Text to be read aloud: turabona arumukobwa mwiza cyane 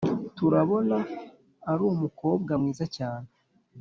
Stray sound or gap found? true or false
false